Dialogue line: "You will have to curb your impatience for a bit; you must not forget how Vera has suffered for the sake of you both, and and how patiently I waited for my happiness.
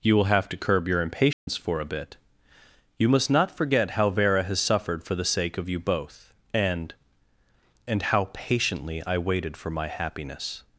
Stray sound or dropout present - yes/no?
yes